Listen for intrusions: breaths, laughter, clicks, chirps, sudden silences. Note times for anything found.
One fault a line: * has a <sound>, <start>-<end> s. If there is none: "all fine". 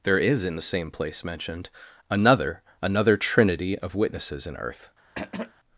* has a throat clearing, 5.1-5.5 s